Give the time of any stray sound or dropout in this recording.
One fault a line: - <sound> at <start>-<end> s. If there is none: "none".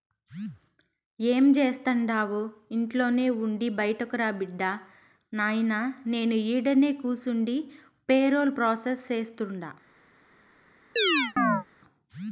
- chirp at 11.0-11.6 s